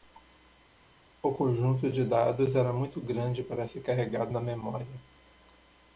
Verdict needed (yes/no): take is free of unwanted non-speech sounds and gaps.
yes